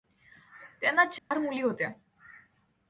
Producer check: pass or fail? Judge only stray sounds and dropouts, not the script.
fail